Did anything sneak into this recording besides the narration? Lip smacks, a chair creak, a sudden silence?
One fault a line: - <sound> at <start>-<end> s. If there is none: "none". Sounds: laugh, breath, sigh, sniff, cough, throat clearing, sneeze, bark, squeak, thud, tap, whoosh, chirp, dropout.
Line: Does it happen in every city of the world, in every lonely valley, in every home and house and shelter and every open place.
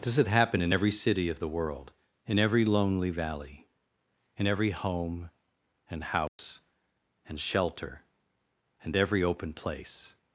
- dropout at 6.3-6.4 s